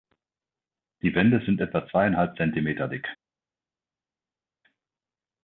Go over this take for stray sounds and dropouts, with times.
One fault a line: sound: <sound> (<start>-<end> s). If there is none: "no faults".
no faults